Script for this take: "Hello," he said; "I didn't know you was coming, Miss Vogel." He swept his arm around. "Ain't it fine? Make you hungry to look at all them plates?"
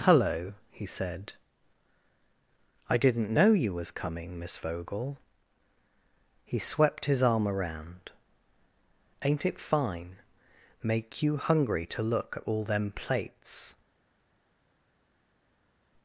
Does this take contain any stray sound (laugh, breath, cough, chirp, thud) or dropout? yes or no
no